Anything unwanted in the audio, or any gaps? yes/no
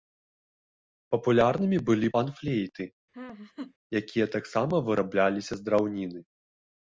yes